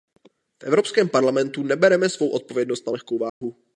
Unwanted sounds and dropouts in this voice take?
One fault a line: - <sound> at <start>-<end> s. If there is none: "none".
- dropout at 3.3-3.4 s